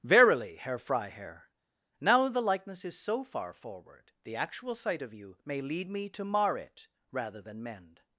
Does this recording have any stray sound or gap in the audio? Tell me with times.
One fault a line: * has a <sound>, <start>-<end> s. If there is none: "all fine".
all fine